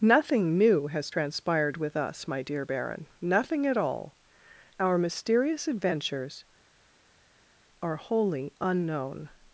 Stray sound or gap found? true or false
false